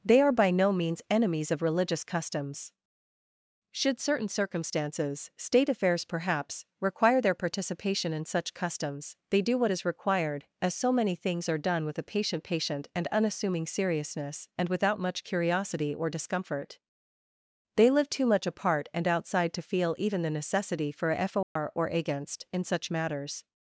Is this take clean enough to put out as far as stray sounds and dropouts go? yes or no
no